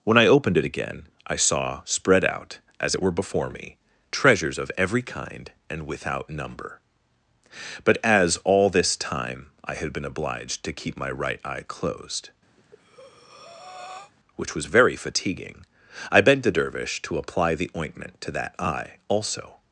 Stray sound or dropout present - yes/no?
yes